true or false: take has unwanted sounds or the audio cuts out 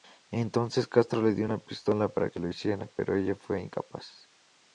false